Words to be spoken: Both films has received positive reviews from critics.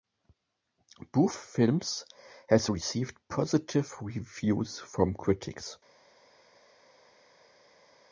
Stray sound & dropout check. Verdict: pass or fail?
pass